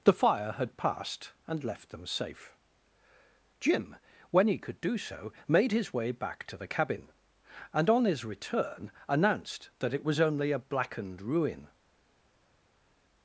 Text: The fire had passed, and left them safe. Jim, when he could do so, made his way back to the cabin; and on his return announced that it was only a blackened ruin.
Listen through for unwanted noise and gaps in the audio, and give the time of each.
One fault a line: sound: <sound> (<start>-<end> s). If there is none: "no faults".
no faults